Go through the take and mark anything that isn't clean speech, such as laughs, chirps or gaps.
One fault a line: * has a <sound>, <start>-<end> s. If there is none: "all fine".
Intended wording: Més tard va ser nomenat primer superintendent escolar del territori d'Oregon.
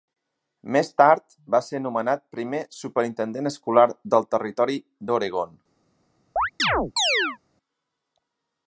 * has a chirp, 6.4-7.4 s